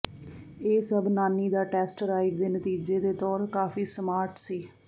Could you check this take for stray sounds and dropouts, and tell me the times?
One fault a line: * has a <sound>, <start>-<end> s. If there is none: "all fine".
all fine